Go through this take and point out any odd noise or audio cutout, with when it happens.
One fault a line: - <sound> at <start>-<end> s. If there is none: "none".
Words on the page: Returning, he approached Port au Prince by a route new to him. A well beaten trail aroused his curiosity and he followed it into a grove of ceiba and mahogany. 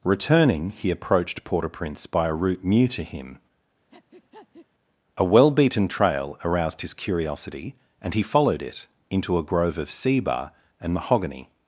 - breath at 3.9-4.7 s